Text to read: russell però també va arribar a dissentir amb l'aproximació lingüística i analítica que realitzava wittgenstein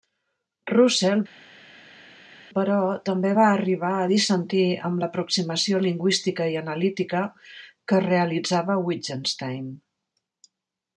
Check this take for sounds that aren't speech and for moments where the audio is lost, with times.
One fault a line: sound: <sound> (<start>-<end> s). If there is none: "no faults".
no faults